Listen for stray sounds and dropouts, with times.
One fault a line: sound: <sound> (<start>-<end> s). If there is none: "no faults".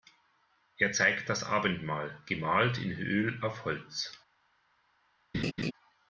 sound: laugh (5.3-5.7 s)